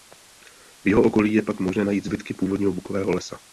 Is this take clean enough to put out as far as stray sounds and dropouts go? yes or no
yes